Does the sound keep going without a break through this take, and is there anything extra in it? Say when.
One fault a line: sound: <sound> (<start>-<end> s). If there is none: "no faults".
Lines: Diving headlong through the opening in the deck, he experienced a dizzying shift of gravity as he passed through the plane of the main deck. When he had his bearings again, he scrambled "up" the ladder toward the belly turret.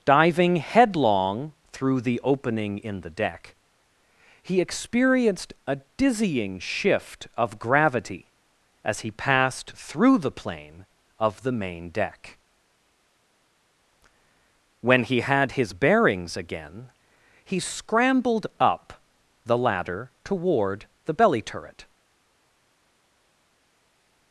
no faults